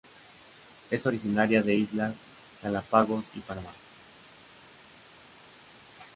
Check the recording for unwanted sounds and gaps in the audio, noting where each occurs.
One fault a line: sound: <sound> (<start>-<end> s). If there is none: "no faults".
no faults